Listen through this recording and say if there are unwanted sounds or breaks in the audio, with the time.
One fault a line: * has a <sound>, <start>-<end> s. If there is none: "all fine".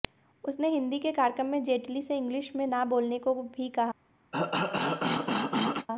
* has a cough, 4.3-5.9 s